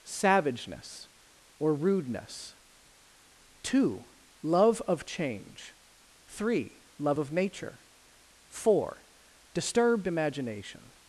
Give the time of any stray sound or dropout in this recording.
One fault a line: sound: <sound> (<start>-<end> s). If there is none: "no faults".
no faults